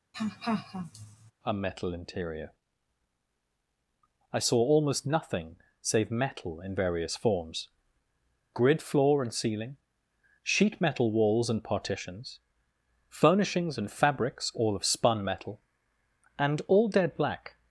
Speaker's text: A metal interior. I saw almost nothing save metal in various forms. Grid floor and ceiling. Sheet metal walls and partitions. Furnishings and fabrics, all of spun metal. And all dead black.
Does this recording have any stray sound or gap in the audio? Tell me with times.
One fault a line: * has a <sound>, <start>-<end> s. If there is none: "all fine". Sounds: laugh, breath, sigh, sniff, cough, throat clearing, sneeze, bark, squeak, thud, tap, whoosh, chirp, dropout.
* has a laugh, 0.1-1.3 s